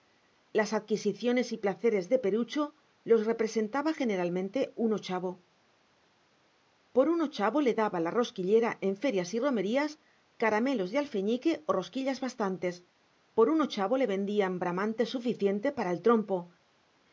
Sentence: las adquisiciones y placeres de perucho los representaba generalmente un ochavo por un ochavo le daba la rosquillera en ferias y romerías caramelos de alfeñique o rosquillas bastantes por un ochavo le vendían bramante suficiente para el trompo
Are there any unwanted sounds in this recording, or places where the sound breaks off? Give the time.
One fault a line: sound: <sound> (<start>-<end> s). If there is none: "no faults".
no faults